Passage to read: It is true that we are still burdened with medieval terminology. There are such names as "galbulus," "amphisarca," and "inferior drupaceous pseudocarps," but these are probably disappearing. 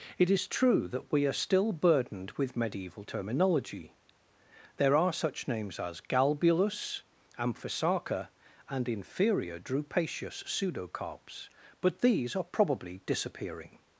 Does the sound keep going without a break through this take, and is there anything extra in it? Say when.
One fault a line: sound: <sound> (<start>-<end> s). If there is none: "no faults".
no faults